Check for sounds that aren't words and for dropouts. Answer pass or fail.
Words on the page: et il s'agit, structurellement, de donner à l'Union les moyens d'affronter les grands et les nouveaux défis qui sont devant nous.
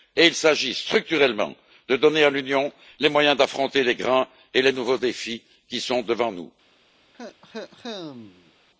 fail